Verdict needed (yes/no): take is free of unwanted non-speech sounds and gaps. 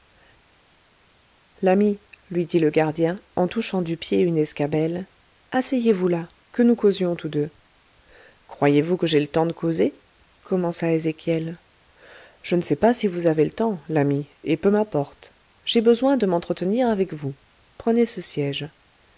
yes